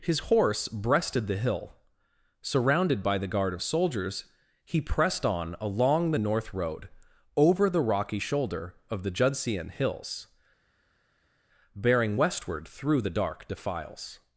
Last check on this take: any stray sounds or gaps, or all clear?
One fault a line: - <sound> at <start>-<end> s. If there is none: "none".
none